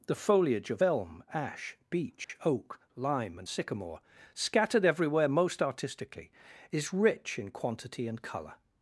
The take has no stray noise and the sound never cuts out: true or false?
false